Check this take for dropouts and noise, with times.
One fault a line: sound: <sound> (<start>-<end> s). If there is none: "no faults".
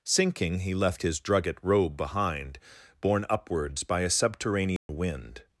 sound: dropout (4.8-4.9 s)